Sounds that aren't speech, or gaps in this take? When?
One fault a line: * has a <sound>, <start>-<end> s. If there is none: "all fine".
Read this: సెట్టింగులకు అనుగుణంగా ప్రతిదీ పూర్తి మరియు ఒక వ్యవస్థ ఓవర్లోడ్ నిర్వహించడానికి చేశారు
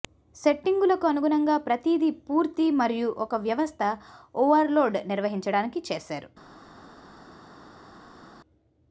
all fine